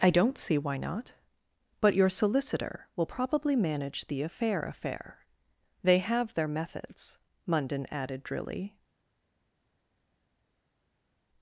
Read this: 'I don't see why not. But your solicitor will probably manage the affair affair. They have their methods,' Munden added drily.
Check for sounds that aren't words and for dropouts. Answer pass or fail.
pass